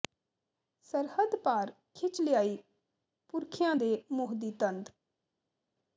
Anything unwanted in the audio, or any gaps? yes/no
no